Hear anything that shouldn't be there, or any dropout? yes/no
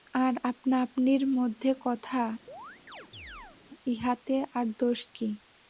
yes